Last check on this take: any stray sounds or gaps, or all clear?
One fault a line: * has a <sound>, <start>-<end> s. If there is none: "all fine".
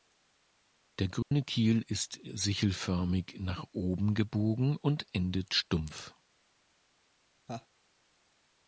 * has a dropout, 1.2-1.3 s
* has a laugh, 7.5-7.7 s